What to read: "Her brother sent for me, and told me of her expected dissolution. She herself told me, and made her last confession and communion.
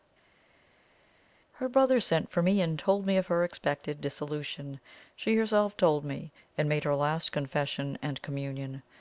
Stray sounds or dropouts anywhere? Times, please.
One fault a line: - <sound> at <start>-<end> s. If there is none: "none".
none